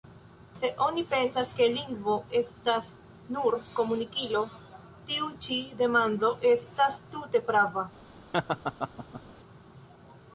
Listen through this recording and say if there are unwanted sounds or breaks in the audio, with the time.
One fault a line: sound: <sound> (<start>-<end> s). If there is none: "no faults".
sound: laugh (8.3-9.2 s)